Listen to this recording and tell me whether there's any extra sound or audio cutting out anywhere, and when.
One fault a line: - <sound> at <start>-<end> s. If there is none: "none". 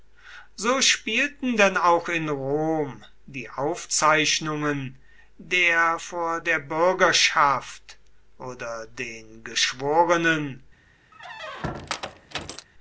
- squeak at 11.1-12.7 s